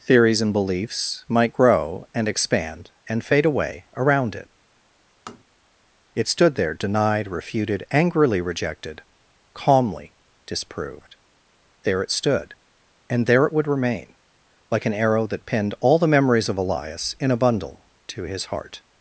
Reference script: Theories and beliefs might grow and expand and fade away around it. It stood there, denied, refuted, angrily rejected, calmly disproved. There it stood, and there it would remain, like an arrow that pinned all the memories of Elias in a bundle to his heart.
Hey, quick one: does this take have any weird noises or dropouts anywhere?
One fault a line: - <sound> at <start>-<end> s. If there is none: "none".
- tap at 5.3-5.5 s